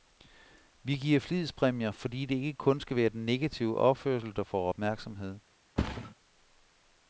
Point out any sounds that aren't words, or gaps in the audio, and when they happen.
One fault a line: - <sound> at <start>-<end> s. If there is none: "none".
- thud at 5.8-6.1 s